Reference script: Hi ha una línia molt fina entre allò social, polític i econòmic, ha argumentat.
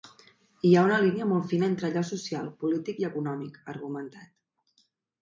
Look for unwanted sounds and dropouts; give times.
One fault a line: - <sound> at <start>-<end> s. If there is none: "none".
none